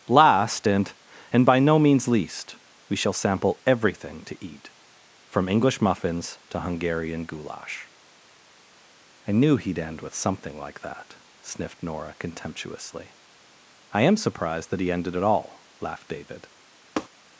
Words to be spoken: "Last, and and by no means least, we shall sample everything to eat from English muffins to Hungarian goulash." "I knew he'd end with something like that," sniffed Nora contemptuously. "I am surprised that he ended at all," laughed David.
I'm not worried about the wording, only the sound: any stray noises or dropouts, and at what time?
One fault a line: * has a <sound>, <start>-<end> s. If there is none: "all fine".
* has a tap, 17.0-17.1 s